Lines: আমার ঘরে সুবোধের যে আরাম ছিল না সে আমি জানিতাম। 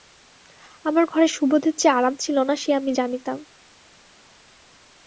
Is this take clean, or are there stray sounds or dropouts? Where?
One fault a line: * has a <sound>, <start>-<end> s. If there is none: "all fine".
all fine